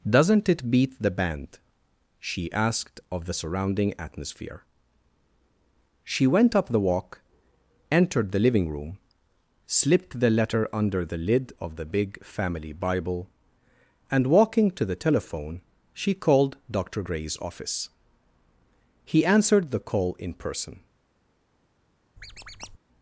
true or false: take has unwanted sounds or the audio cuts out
true